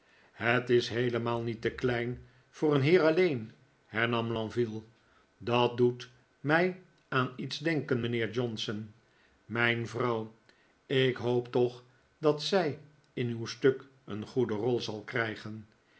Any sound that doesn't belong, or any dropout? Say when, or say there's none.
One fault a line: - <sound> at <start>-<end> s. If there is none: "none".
none